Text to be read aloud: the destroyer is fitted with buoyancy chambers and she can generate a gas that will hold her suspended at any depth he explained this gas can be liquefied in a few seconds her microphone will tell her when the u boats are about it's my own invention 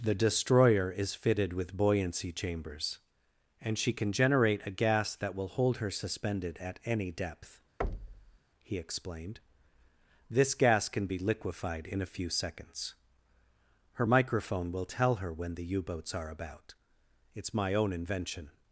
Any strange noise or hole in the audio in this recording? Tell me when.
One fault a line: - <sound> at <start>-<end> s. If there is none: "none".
- thud at 7.8-8.4 s